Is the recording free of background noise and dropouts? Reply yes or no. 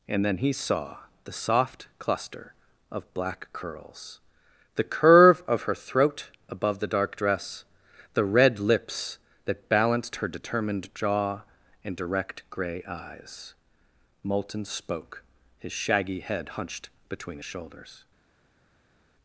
yes